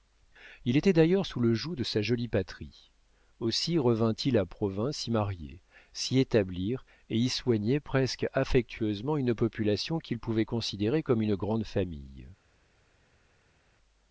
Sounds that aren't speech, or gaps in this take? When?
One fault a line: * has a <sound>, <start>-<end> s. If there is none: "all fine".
all fine